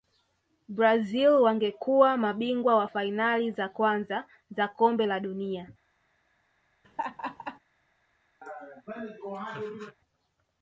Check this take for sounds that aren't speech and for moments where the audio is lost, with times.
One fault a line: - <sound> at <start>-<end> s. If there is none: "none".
- laugh at 6.8-7.6 s
- laugh at 8.4-10.0 s